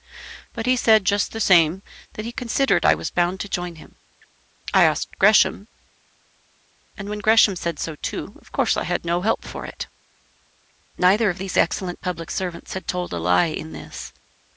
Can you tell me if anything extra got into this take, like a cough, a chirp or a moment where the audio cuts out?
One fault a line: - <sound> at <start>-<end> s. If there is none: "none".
none